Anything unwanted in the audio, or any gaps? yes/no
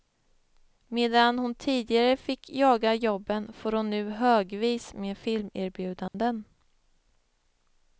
yes